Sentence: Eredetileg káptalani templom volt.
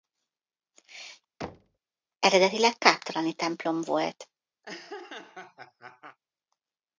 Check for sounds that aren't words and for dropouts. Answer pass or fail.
fail